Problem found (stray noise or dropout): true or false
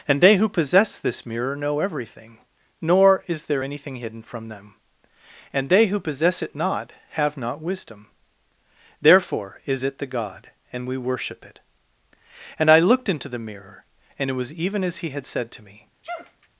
true